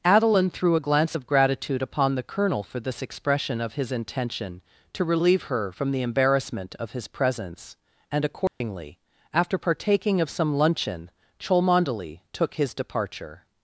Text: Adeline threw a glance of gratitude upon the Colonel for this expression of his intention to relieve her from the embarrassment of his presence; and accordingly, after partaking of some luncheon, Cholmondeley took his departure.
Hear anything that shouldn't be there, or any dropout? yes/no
yes